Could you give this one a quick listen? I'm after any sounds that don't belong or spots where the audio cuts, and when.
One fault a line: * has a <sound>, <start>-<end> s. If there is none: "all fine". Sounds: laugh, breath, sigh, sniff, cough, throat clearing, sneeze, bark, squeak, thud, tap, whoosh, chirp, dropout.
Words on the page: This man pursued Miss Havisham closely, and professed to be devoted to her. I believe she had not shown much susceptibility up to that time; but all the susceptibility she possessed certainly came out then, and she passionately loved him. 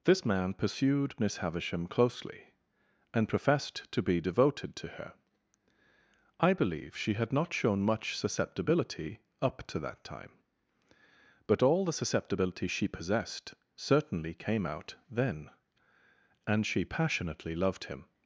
all fine